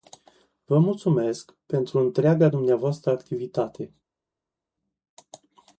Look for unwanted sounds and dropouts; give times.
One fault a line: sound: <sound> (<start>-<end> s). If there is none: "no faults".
no faults